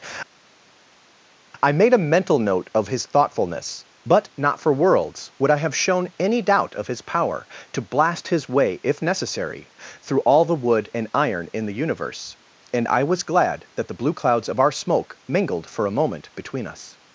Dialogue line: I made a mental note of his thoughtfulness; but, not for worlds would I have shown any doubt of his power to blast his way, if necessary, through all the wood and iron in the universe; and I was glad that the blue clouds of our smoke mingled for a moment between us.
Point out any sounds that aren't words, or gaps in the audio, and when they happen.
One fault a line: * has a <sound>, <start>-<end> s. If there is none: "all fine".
all fine